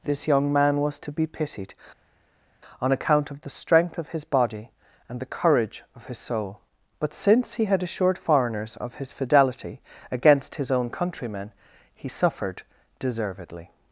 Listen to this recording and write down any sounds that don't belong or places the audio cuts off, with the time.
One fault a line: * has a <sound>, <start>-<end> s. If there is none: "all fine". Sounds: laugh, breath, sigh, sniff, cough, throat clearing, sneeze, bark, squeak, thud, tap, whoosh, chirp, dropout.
all fine